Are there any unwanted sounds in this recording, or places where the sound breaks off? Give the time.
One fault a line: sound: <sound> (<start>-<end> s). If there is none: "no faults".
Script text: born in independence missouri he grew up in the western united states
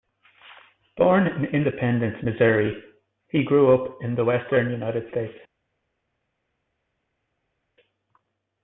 no faults